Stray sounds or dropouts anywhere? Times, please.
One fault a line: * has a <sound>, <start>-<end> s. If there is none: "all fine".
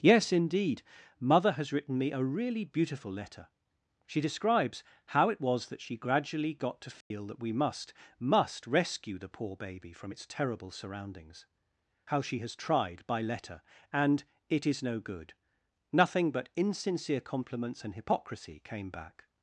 * has a dropout, 7.0-7.1 s